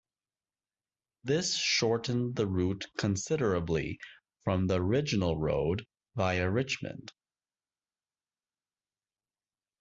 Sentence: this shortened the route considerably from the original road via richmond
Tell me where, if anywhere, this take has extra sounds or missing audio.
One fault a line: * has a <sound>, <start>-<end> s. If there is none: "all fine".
all fine